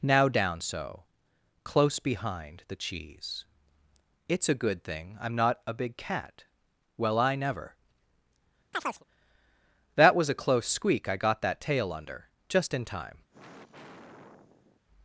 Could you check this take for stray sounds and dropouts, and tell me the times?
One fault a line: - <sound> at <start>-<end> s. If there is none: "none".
- chirp at 8.7-9.0 s
- sigh at 13.3-14.8 s